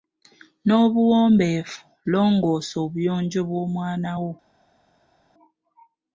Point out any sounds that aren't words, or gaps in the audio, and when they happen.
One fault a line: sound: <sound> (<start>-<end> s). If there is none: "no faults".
no faults